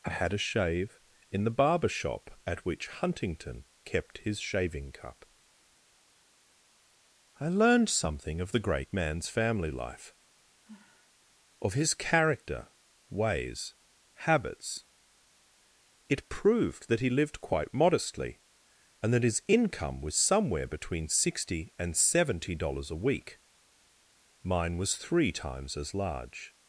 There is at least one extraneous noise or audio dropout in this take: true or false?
true